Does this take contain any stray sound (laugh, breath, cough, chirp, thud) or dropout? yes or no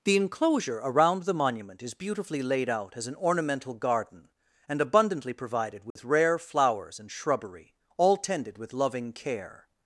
yes